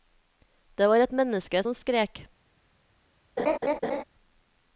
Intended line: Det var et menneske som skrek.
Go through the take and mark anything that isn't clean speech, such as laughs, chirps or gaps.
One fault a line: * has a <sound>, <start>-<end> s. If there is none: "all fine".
* has a laugh, 3.4-4.0 s